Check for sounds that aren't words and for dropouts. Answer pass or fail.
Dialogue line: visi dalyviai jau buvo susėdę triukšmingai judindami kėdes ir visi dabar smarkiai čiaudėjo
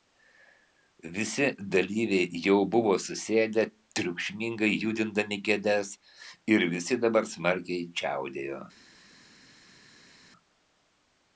pass